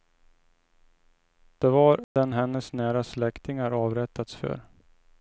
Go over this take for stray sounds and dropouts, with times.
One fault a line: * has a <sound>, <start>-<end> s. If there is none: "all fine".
* has a dropout, 2.0-2.2 s